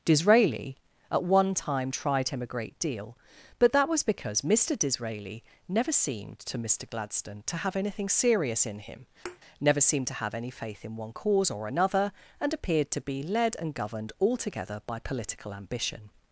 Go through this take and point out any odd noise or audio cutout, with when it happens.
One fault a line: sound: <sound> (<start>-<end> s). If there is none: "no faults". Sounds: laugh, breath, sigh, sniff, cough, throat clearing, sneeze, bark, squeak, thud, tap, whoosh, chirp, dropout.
sound: thud (9.2-9.4 s)